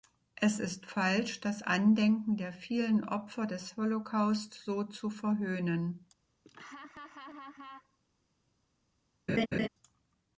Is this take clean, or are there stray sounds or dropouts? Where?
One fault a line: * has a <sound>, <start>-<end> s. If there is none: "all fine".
* has a laugh, 6.5-8.0 s
* has a laugh, 9.3-9.7 s